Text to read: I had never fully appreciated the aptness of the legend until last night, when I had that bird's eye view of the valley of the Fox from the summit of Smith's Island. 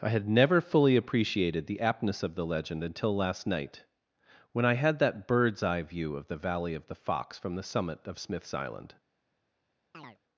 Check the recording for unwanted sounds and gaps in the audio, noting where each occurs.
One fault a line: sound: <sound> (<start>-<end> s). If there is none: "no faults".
sound: chirp (9.9-10.2 s)